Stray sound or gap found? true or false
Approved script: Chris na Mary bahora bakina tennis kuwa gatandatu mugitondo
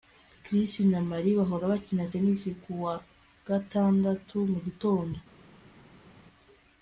false